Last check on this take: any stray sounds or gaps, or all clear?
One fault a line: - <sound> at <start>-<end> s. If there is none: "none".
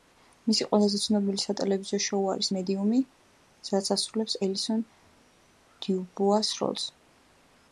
none